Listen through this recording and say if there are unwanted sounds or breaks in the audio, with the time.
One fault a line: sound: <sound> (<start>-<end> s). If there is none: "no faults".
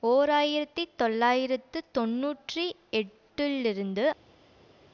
no faults